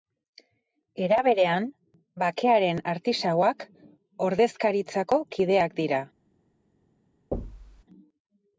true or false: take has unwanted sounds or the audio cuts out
true